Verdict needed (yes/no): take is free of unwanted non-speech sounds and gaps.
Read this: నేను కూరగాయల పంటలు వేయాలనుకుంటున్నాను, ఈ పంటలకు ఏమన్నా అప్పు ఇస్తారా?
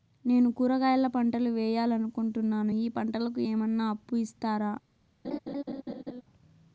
no